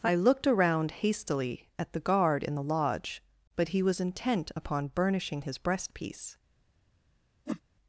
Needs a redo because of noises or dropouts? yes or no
yes